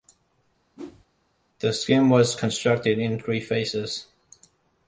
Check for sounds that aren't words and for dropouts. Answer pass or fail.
fail